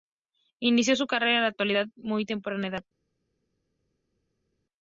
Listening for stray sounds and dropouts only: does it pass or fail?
pass